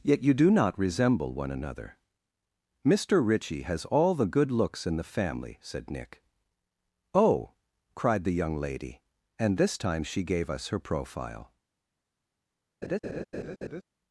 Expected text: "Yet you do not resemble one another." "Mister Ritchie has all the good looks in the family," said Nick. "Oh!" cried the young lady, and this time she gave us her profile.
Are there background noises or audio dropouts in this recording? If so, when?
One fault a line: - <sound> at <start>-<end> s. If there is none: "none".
- laugh at 12.8-13.8 s